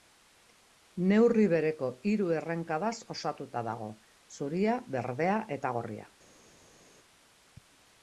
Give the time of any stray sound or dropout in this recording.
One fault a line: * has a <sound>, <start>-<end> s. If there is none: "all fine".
all fine